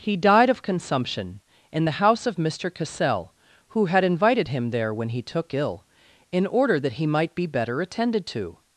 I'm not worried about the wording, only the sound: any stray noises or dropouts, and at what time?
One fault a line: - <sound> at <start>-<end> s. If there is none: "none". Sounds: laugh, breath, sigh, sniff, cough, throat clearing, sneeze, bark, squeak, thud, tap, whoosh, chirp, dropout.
none